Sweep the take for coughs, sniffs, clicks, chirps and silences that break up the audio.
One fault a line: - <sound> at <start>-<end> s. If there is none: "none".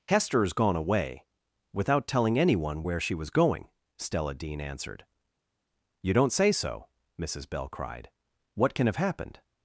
none